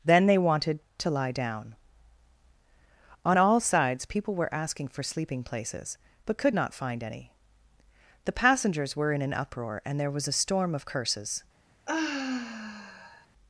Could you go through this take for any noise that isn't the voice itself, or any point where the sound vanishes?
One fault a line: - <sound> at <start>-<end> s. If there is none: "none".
- sigh at 11.9-13.3 s